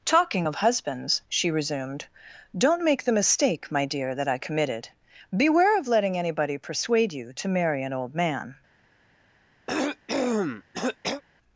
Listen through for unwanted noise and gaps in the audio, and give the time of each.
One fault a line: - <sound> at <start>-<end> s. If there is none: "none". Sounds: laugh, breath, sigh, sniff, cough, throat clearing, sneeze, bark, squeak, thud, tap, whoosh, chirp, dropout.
- cough at 9.7-11.2 s